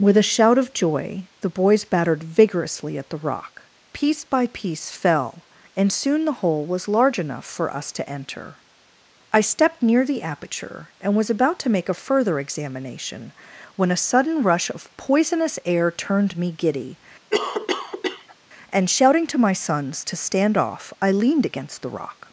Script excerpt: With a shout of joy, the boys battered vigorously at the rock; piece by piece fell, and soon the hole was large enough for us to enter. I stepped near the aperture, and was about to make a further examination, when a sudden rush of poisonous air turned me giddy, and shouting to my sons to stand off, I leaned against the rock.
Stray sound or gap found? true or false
true